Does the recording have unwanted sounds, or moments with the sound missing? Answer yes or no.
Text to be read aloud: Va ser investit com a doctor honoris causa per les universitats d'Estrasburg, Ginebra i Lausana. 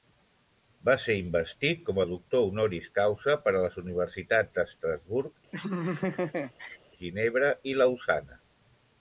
yes